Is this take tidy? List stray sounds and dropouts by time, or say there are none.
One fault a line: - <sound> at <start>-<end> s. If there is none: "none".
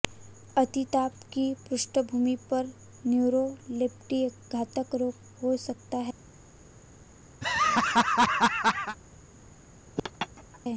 - laugh at 7.4-9.0 s
- laugh at 10.0-10.6 s